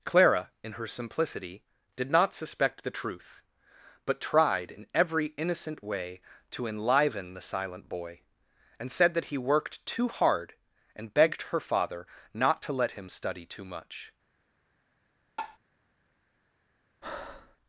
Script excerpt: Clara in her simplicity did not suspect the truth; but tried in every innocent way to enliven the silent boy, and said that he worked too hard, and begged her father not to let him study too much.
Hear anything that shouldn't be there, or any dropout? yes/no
yes